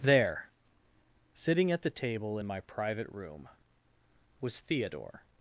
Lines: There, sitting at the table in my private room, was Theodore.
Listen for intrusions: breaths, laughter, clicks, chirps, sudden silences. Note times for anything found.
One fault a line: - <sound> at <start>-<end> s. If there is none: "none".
none